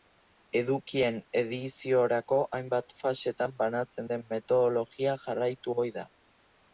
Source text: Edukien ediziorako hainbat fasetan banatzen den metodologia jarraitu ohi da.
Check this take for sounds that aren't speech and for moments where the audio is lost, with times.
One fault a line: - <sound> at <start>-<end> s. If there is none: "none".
none